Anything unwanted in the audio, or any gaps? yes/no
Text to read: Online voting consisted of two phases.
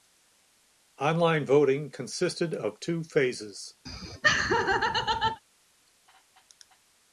yes